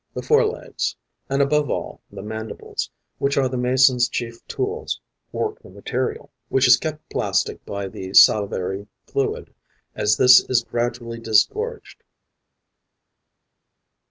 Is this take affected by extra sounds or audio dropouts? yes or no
no